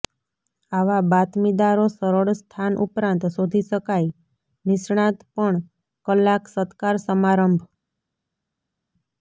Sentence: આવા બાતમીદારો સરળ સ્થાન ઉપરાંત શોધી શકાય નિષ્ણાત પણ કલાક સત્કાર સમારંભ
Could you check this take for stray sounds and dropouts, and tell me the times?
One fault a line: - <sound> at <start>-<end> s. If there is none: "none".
none